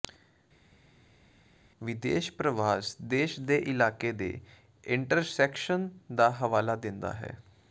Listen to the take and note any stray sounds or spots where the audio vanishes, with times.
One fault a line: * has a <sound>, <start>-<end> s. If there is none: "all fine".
all fine